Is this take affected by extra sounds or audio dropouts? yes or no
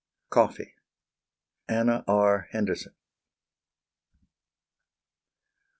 no